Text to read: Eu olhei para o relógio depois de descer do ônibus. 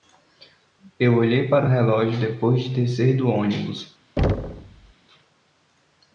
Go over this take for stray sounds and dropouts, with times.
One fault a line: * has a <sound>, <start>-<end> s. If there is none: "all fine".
* has a thud, 4.2-4.9 s